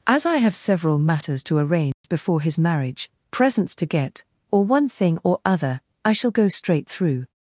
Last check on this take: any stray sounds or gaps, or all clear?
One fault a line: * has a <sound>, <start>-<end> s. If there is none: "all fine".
* has a dropout, 1.9-2.0 s